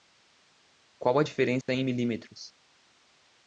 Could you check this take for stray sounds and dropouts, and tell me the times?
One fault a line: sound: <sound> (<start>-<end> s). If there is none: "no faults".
sound: dropout (1.6-1.7 s)